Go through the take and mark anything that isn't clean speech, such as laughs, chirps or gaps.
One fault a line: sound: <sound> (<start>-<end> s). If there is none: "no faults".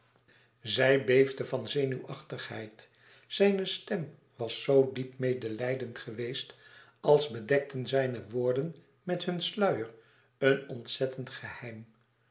no faults